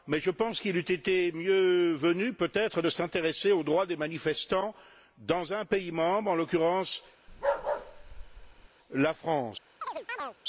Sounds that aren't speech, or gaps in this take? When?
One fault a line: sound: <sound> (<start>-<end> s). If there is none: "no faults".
sound: bark (7.3-8.7 s)
sound: chirp (9.8-10.4 s)